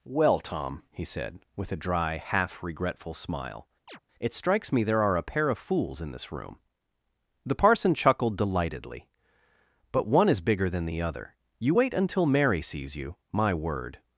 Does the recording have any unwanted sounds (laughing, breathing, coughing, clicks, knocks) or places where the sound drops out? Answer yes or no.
yes